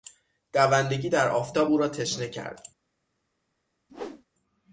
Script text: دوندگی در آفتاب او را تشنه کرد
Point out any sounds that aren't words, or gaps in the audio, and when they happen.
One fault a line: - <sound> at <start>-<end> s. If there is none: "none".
- whoosh at 3.9-4.2 s